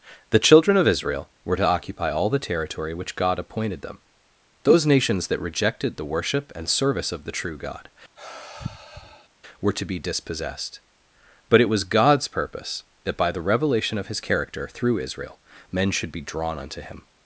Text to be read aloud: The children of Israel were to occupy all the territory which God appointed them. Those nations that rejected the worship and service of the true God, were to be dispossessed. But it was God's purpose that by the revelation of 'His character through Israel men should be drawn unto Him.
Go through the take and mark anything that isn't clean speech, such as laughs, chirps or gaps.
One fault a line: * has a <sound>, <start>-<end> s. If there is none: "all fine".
* has a sigh, 8.2-9.3 s